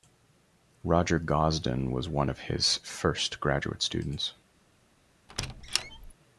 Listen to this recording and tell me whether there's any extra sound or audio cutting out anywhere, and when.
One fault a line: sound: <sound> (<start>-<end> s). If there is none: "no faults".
sound: squeak (5.3-6.1 s)